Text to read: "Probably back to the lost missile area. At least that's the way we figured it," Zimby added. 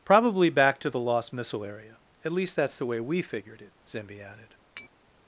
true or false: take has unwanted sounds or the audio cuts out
true